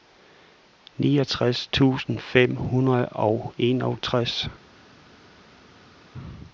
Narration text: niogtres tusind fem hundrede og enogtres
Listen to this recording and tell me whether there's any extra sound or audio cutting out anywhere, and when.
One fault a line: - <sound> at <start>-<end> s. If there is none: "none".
none